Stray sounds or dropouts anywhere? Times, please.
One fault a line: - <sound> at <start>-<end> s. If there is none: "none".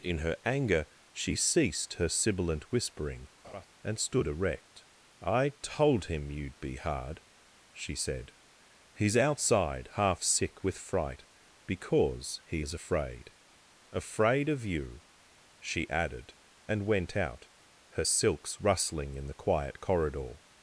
- laugh at 3.4-3.7 s